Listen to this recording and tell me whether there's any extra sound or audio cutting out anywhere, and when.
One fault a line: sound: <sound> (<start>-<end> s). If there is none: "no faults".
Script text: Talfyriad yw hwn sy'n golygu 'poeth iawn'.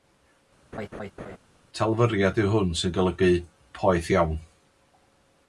sound: laugh (0.7-1.4 s)